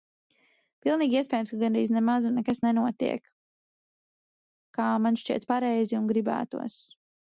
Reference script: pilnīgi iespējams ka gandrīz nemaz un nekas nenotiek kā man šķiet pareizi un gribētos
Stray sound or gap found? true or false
false